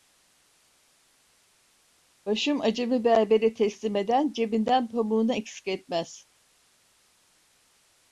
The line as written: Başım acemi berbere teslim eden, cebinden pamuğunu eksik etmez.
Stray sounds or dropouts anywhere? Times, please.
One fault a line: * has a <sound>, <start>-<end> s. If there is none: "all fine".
all fine